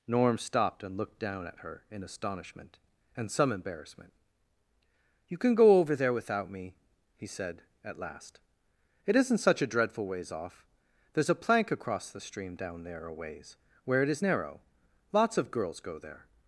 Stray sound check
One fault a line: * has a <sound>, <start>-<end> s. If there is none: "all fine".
all fine